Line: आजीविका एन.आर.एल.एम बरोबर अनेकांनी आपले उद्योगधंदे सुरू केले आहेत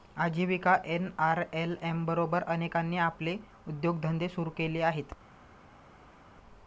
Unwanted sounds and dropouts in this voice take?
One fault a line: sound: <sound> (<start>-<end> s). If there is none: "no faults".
no faults